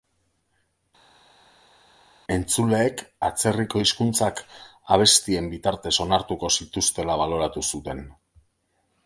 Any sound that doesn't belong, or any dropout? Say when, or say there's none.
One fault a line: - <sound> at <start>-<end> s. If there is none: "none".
none